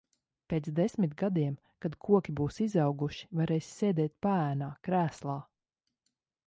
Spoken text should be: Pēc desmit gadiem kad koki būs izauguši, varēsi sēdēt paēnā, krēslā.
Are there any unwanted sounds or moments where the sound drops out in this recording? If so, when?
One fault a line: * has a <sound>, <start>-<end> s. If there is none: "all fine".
all fine